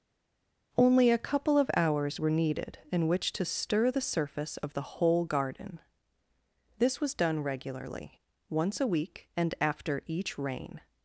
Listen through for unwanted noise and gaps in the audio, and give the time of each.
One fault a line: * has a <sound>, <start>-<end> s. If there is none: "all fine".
all fine